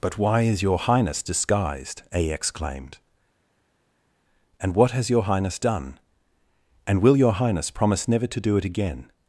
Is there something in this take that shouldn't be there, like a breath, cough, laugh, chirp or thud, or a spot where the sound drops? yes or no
no